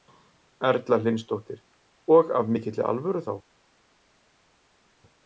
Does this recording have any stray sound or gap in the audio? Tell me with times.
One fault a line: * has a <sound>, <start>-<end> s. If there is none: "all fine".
all fine